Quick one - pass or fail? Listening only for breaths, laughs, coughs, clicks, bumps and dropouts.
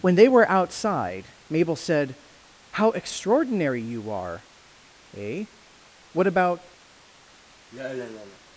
fail